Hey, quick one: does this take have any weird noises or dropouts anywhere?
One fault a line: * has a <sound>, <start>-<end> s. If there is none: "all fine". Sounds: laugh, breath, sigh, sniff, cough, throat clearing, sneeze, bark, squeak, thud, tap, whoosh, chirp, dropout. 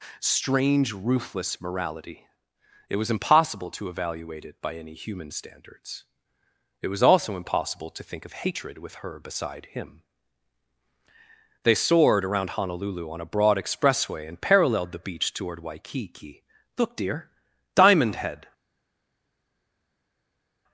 all fine